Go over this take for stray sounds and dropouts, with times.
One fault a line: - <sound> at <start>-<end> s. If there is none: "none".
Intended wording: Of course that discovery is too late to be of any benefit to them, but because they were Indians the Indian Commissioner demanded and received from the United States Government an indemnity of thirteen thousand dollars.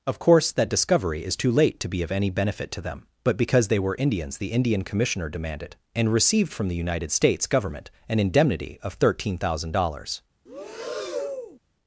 - breath at 10.5-11.6 s